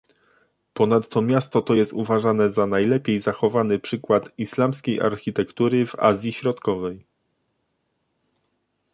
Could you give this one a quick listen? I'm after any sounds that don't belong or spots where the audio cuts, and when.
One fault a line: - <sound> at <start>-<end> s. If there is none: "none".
none